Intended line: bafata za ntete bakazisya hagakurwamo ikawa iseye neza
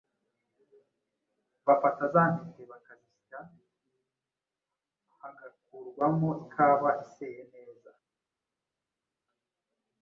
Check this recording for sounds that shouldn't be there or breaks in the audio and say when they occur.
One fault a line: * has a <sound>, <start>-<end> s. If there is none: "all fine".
all fine